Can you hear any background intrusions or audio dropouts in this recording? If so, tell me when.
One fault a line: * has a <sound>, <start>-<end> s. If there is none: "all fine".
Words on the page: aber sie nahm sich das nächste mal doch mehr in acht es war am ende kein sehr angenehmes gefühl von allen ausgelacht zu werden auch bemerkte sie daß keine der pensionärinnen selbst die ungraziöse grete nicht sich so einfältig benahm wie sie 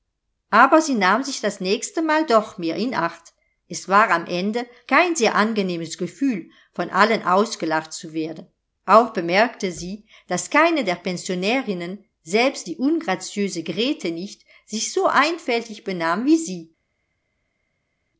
all fine